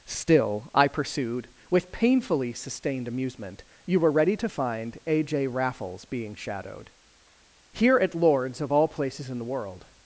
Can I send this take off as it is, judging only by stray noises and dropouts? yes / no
yes